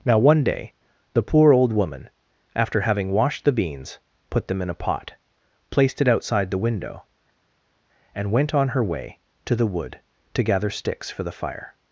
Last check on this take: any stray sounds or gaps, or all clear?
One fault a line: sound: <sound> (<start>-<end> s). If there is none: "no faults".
no faults